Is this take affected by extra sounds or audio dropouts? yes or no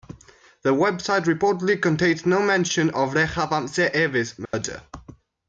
yes